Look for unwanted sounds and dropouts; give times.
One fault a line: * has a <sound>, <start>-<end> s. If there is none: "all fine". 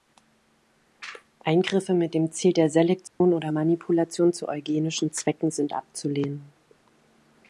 * has a dropout, 3.1-3.2 s